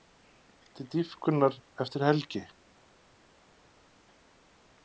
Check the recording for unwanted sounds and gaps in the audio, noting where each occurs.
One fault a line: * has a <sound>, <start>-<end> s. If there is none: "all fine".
all fine